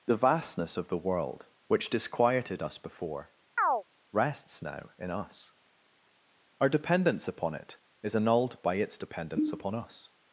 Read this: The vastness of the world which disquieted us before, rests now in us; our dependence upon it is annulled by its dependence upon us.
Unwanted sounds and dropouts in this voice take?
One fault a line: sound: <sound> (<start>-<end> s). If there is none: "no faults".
sound: chirp (3.6-3.8 s)